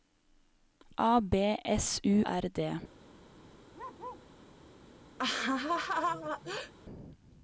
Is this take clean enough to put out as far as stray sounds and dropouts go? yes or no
no